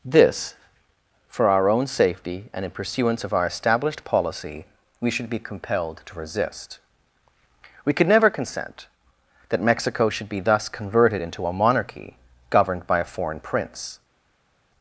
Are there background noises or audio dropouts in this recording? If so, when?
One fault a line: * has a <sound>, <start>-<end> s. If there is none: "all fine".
all fine